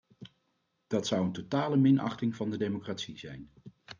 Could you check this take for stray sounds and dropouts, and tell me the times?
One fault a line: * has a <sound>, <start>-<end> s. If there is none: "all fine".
all fine